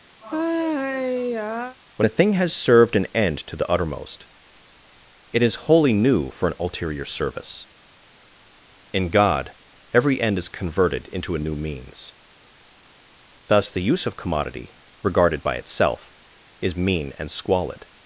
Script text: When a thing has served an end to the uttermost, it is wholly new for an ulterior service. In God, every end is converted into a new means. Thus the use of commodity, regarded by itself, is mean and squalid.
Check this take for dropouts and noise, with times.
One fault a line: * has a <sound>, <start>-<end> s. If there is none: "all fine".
* has a sigh, 0.2-1.8 s